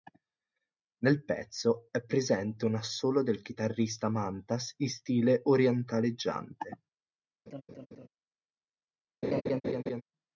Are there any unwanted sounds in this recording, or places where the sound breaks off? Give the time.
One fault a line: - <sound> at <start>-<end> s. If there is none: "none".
- laugh at 7.5-8.1 s
- laugh at 9.2-10.0 s